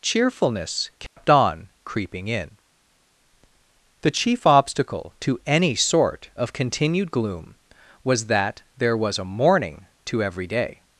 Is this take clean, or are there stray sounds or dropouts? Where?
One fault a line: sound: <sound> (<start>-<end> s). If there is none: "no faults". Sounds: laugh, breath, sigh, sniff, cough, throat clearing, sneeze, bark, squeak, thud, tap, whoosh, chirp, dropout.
sound: dropout (1.1-1.2 s)